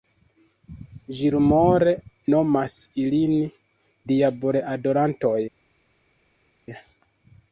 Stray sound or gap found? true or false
false